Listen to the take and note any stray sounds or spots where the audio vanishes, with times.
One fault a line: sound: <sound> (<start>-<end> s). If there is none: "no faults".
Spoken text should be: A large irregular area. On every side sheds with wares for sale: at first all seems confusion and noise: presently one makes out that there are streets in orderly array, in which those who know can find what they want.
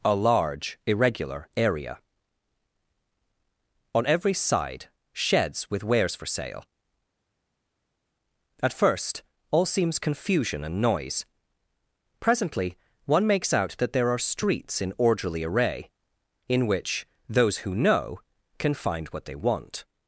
no faults